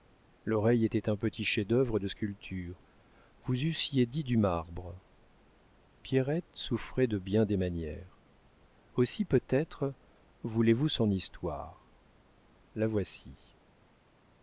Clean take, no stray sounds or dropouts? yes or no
yes